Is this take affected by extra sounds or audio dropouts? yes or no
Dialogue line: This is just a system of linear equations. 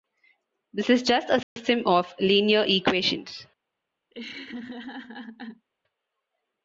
yes